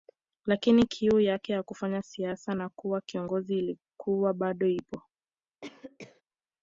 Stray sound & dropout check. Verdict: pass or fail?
fail